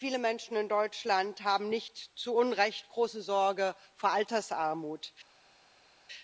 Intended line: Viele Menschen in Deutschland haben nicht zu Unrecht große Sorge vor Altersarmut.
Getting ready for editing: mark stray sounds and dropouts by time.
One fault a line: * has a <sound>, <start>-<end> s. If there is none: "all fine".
all fine